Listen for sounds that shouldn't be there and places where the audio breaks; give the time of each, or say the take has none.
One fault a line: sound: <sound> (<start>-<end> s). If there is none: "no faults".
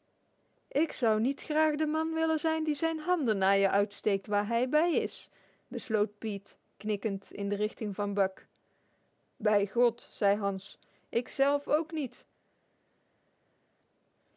no faults